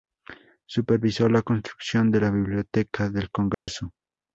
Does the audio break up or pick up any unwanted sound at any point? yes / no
yes